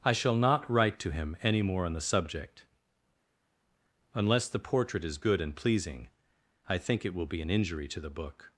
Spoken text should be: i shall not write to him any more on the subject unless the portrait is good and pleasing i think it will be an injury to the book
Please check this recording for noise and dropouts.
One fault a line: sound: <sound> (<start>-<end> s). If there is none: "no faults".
no faults